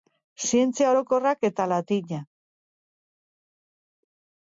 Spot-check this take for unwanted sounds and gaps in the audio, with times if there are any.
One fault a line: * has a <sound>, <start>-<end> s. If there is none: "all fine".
all fine